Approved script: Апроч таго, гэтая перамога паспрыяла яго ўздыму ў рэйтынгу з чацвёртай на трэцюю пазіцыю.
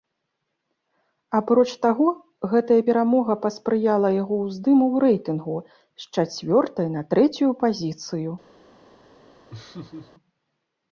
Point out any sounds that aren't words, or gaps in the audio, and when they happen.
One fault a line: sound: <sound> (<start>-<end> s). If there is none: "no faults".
sound: laugh (9.5-10.1 s)